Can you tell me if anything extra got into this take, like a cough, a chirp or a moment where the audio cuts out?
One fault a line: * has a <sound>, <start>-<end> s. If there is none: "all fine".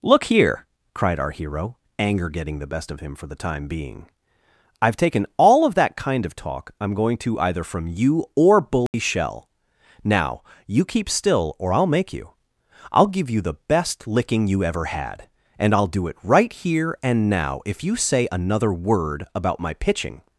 * has a dropout, 8.9-8.9 s